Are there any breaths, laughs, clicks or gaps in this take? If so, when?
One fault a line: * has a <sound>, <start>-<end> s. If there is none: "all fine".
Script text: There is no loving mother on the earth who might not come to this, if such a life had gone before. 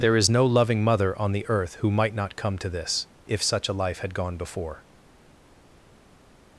all fine